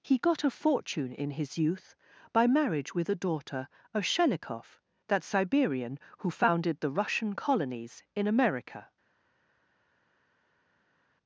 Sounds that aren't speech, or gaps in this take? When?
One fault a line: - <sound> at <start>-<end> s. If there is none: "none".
none